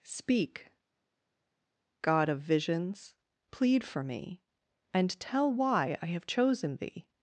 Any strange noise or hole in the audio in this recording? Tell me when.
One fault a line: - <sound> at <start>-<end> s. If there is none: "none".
none